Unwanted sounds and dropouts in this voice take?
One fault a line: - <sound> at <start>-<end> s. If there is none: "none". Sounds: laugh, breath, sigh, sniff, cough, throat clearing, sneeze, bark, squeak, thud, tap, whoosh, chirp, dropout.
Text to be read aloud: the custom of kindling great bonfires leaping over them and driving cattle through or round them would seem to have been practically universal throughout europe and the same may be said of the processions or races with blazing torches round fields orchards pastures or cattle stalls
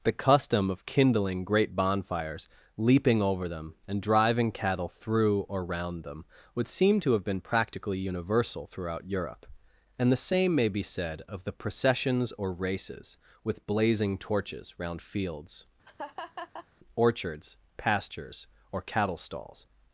- laugh at 15.9-16.7 s